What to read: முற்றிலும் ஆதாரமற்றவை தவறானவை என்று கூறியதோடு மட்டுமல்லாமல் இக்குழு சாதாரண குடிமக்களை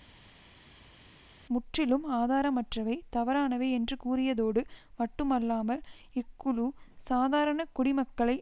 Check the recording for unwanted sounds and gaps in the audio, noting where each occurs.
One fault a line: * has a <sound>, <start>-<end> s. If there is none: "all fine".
all fine